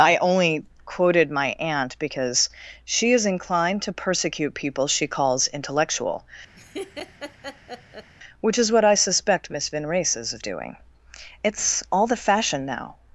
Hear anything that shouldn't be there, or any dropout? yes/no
yes